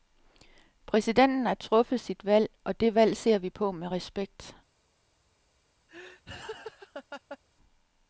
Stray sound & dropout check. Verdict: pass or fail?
fail